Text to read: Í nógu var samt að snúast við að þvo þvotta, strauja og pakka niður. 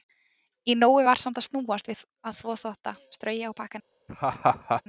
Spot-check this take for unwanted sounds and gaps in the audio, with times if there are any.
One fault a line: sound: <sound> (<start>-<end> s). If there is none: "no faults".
sound: laugh (4.1-4.8 s)